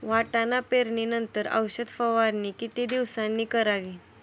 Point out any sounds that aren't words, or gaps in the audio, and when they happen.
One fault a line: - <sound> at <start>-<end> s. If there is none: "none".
none